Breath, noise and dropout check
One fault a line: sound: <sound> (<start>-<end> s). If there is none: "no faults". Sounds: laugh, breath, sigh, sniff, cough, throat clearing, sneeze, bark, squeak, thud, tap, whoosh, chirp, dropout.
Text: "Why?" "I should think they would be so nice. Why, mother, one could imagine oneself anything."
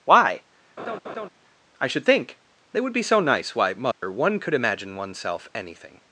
sound: laugh (0.8-1.3 s)
sound: dropout (3.9-4.0 s)